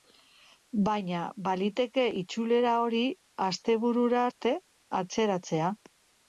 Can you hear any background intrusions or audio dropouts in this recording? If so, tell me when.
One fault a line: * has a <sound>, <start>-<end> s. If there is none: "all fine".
all fine